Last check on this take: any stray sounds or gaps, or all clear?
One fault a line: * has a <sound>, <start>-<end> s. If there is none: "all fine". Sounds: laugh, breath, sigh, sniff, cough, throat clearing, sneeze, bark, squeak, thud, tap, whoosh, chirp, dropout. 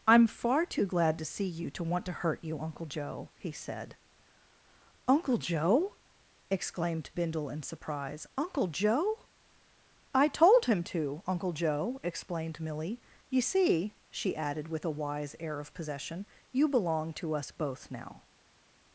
all fine